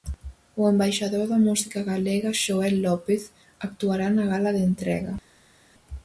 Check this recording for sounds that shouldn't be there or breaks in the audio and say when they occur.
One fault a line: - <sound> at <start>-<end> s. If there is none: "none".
none